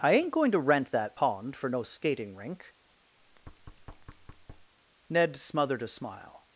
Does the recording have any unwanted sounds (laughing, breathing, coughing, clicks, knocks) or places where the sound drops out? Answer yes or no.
yes